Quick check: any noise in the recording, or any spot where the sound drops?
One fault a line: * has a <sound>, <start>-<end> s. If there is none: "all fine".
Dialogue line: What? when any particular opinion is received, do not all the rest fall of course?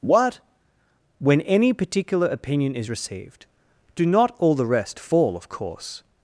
all fine